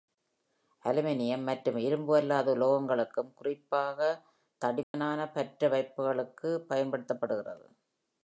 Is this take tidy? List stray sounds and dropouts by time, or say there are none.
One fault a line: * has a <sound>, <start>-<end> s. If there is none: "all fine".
* has a dropout, 4.8-4.9 s